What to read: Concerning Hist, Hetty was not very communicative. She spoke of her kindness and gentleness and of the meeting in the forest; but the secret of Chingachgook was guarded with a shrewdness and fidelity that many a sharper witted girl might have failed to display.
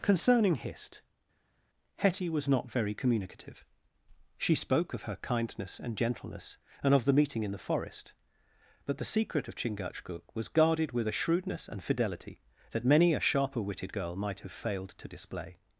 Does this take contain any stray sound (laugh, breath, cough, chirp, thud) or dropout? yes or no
no